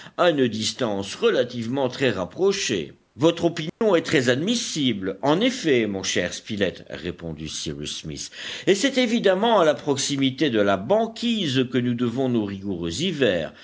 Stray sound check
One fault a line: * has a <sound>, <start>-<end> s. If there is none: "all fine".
* has a dropout, 3.7-3.8 s